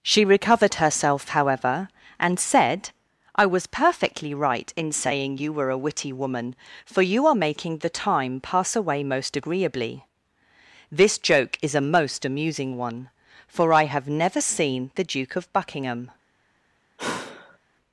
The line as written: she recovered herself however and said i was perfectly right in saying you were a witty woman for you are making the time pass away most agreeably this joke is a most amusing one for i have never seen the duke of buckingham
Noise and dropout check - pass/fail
fail